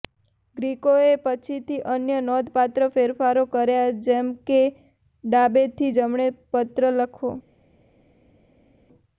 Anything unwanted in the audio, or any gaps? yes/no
no